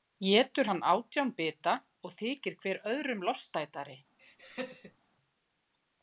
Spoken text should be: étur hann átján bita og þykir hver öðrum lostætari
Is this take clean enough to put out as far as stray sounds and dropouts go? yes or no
no